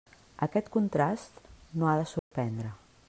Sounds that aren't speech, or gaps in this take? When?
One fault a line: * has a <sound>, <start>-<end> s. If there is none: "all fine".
* has a dropout, 2.2-2.3 s